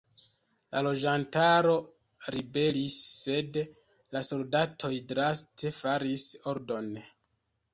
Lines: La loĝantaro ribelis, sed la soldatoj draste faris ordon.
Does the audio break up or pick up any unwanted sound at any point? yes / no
no